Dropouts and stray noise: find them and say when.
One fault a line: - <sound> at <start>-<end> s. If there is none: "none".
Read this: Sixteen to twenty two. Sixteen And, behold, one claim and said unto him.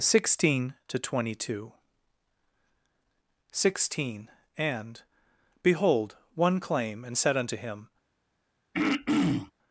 - throat clearing at 8.7-9.5 s